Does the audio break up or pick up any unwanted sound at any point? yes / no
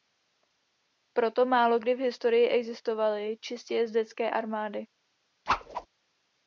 yes